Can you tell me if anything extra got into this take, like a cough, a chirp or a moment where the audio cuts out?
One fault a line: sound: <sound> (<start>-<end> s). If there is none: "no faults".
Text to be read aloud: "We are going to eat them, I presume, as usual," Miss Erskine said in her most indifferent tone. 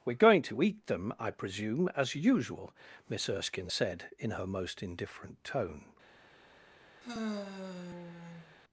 sound: sigh (7.0-8.6 s)